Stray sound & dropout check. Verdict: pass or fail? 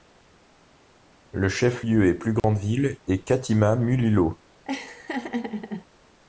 fail